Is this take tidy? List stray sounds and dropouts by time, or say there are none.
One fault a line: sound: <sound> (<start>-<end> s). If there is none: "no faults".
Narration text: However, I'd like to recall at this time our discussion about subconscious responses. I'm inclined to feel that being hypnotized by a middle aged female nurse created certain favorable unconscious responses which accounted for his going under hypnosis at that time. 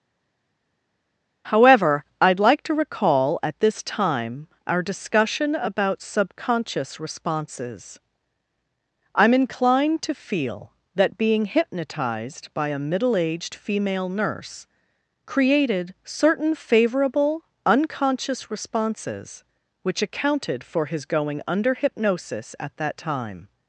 no faults